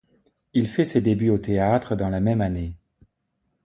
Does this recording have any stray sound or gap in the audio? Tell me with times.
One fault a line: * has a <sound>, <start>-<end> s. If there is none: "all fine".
all fine